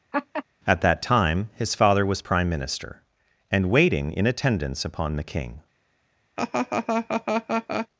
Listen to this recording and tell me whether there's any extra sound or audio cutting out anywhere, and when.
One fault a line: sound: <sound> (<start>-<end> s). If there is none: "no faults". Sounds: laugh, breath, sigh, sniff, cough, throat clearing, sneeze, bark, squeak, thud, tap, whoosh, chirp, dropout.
sound: laugh (0.1-0.4 s)
sound: laugh (6.4-7.9 s)